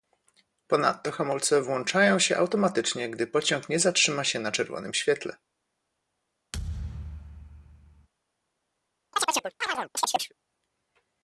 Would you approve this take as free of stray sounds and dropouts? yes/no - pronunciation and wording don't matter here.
no